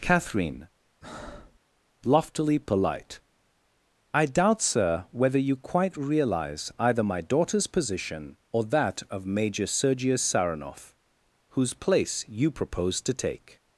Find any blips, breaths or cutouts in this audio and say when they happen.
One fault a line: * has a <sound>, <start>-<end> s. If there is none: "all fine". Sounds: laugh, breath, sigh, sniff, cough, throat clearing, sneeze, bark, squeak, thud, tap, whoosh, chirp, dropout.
* has a breath, 1.0-1.6 s